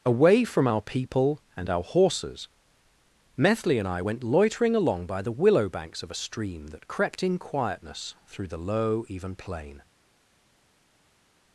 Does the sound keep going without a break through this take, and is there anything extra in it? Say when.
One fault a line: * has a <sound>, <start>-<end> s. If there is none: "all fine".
all fine